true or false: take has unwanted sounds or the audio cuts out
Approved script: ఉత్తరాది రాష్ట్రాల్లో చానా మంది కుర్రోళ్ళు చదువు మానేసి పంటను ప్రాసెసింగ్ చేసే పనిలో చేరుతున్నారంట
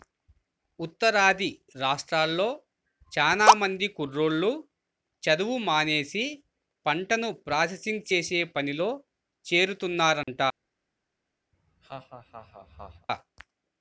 true